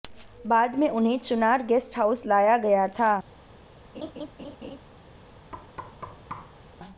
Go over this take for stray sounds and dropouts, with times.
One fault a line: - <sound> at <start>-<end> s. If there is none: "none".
- laugh at 3.9-4.8 s
- thud at 5.5-6.6 s